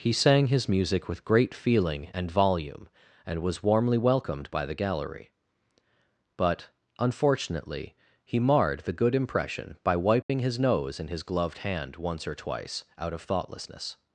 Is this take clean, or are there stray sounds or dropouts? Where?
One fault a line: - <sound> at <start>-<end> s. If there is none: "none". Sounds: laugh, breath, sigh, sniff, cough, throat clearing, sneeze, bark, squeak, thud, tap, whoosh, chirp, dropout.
- dropout at 10.2-10.3 s